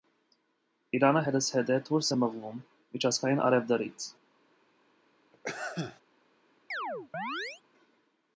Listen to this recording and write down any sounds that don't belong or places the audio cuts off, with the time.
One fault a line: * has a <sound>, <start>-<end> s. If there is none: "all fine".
* has a sneeze, 5.3-6.0 s
* has a chirp, 6.7-7.6 s